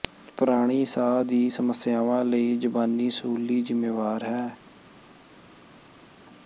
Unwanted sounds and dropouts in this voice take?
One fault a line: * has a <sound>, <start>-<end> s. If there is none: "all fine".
all fine